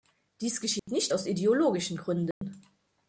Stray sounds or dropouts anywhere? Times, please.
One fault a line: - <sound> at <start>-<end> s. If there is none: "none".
- dropout at 0.8-0.9 s
- dropout at 2.3-2.4 s